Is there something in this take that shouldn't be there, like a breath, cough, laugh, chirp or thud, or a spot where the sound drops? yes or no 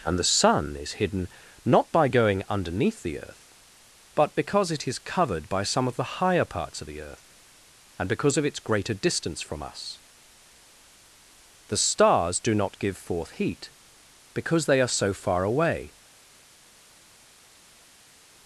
no